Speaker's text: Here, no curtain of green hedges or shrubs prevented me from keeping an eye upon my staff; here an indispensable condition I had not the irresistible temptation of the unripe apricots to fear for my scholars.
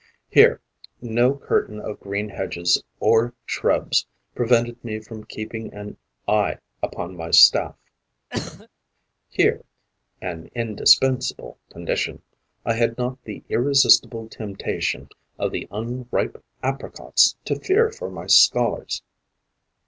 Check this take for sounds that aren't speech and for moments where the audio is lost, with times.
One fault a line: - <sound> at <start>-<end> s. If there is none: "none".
- cough at 8.3-8.7 s